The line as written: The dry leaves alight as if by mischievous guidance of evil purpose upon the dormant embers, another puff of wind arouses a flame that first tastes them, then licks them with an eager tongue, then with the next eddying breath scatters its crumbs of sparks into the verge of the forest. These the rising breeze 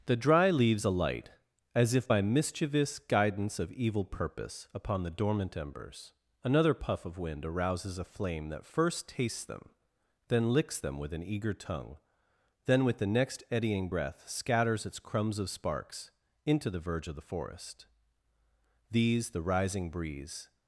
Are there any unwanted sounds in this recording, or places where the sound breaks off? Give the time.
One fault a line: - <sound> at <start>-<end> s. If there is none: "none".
none